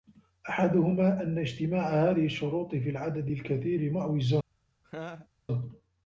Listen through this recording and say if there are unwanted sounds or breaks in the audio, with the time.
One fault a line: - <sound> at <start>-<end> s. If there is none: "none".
- laugh at 4.8-5.3 s